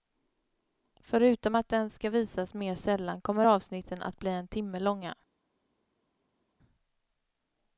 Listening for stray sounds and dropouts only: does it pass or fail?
pass